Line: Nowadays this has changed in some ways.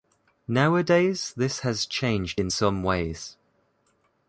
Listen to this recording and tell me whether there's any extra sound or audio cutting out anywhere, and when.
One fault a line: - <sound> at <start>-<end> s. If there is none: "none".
none